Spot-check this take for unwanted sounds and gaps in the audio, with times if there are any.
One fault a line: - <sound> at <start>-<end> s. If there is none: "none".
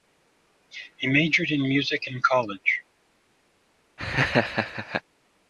- laugh at 4.0-5.0 s